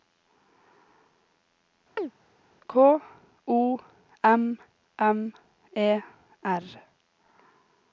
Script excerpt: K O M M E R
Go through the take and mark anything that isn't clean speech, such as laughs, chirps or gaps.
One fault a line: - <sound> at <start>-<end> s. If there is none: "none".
- chirp at 2.0-2.1 s